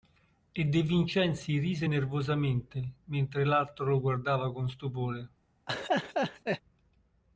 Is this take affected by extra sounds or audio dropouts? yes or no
yes